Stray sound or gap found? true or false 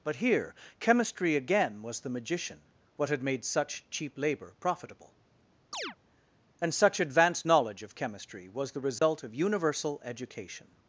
true